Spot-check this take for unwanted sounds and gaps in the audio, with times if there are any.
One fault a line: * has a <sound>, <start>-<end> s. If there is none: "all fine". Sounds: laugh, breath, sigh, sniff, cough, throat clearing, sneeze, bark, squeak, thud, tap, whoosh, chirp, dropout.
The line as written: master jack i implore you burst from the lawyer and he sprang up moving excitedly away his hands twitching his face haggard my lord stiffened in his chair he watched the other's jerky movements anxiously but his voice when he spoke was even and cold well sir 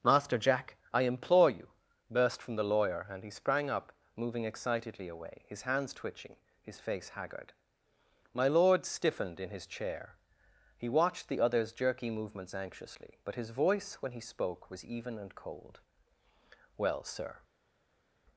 all fine